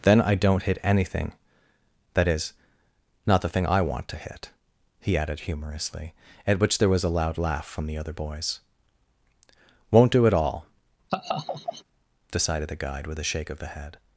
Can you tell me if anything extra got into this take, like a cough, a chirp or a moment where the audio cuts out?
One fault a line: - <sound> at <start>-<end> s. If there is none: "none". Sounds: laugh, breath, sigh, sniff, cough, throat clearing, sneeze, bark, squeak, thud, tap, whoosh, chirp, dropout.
- laugh at 11.1-11.8 s